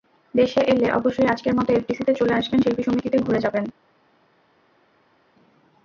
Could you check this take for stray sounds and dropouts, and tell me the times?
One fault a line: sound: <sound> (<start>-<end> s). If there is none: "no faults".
no faults